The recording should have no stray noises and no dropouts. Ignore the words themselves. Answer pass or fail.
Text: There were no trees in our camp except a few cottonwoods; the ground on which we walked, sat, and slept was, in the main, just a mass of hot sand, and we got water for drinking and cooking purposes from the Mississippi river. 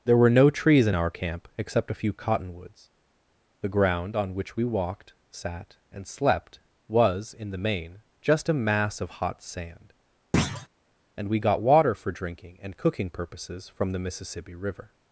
fail